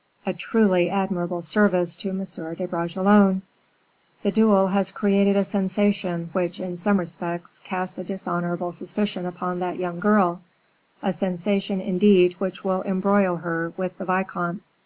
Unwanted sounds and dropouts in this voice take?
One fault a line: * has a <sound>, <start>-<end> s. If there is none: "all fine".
all fine